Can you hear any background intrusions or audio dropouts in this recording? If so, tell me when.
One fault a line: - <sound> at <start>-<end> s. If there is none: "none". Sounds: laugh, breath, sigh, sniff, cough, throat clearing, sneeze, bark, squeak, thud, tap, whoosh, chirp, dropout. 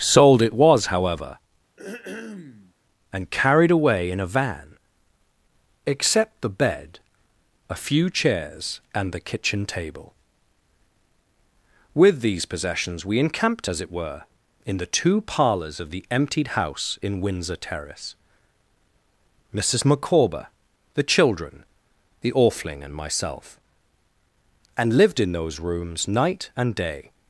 - throat clearing at 1.8-2.7 s